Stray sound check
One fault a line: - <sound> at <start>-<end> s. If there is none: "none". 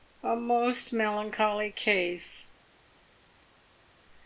none